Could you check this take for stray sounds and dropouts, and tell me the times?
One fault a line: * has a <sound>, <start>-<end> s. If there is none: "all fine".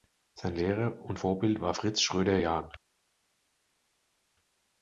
all fine